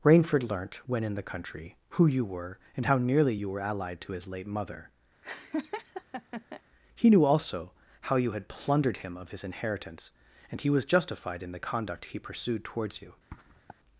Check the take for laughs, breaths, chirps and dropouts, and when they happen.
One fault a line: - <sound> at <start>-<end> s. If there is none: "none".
- laugh at 5.2-6.6 s
- sniff at 13.3-13.8 s